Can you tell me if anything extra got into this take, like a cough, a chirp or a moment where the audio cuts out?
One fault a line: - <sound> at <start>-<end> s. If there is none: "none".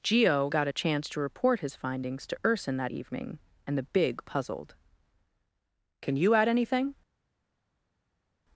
none